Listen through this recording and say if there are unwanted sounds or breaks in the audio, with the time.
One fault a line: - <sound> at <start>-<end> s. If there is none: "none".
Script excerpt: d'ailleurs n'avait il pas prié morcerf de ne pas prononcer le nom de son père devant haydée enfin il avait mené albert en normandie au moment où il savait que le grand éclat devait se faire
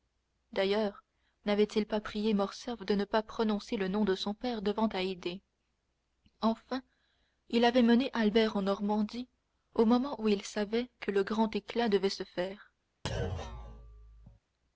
- thud at 13.0-14.4 s